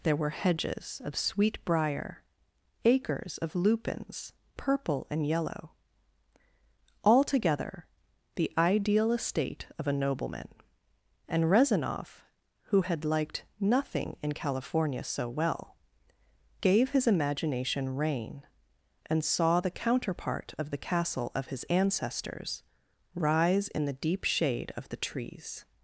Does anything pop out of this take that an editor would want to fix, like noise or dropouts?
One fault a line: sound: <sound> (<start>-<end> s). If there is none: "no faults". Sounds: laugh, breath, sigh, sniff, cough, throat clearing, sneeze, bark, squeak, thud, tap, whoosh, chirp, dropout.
no faults